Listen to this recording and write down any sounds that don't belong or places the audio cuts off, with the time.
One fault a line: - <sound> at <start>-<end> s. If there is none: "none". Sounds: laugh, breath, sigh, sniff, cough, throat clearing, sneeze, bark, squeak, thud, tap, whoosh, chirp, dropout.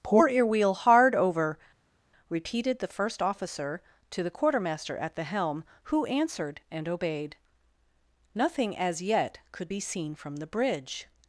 none